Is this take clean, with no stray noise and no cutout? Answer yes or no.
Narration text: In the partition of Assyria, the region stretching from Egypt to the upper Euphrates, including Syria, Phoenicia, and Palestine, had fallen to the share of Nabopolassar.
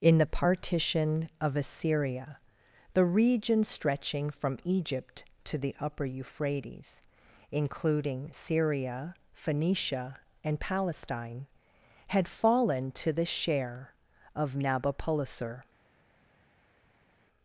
yes